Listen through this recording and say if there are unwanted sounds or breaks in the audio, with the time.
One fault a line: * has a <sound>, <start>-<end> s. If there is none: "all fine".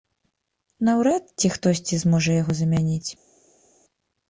all fine